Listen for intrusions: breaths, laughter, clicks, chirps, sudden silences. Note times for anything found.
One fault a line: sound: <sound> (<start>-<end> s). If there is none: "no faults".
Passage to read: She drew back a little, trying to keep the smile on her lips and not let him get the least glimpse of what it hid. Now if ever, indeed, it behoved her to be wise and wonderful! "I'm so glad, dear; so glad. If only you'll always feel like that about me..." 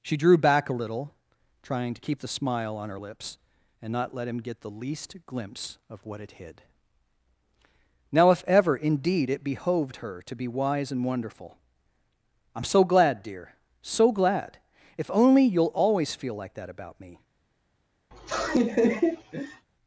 sound: laugh (18.1-19.7 s)